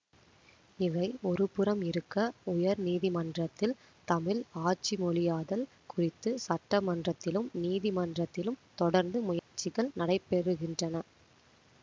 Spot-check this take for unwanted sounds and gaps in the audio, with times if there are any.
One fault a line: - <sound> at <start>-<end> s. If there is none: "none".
- dropout at 9.4-9.5 s